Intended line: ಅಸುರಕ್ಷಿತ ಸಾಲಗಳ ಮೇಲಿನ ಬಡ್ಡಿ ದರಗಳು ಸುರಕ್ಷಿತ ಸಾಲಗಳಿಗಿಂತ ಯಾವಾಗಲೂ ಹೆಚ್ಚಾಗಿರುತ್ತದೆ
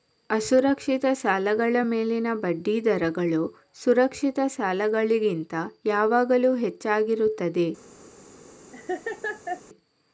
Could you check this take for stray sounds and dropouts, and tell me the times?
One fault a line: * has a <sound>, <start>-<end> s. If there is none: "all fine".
* has a laugh, 8.7-9.6 s